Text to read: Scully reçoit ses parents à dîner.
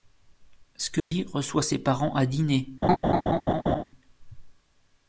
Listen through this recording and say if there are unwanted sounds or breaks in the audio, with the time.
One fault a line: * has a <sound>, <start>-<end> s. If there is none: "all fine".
* has a dropout, 1.0-1.1 s
* has a laugh, 2.8-3.8 s